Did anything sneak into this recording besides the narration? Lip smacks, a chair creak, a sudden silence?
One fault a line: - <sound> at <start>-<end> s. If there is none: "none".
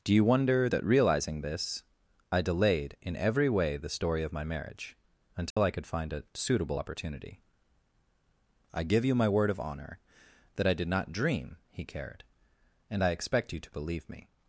- dropout at 5.5-5.6 s